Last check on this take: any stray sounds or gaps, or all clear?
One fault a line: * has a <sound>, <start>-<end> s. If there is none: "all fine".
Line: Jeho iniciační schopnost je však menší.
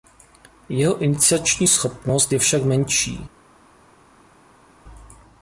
all fine